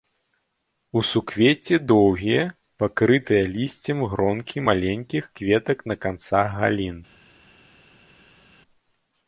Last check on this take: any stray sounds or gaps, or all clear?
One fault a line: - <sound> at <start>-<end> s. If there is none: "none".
none